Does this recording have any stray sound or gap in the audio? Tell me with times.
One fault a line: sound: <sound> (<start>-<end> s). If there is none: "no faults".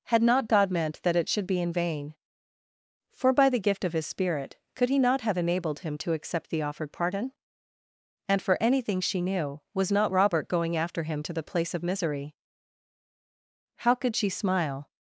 no faults